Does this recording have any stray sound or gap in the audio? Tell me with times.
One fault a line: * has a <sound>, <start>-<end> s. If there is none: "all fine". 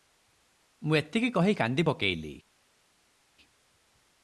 all fine